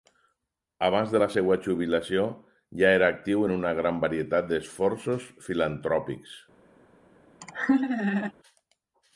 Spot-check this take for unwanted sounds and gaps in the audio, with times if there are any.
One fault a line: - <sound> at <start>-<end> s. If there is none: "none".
- laugh at 7.4-8.3 s